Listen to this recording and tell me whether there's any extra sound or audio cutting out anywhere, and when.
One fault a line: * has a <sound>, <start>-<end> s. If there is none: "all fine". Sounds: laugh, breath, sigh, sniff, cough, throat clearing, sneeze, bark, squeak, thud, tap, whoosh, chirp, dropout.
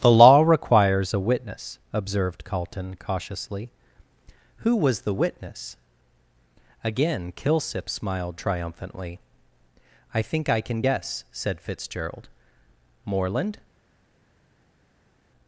all fine